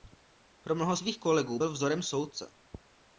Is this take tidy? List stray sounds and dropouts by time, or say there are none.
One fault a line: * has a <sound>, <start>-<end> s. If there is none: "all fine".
all fine